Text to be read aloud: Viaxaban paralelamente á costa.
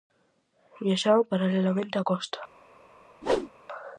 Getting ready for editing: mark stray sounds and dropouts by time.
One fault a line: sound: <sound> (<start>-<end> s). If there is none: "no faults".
sound: whoosh (3.2-3.5 s)